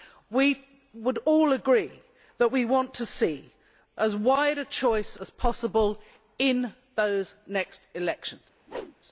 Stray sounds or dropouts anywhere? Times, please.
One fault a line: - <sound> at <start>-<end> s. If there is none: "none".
- whoosh at 8.7-9.0 s